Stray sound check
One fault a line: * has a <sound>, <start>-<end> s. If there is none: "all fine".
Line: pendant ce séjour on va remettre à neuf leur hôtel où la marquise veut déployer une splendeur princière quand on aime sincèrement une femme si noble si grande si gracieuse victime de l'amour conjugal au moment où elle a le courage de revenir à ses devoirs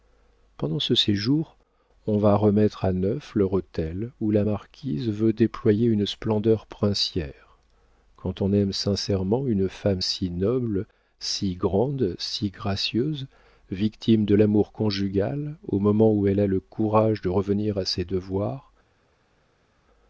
all fine